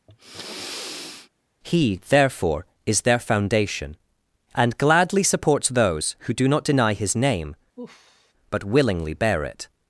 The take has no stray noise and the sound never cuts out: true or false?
false